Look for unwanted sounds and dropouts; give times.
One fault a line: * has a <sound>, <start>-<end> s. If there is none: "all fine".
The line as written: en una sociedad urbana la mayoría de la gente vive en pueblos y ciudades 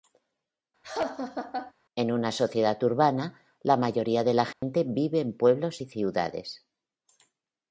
* has a laugh, 0.8-1.7 s
* has a dropout, 4.5-4.6 s